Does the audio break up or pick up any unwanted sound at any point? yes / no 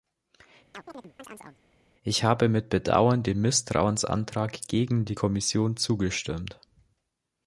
yes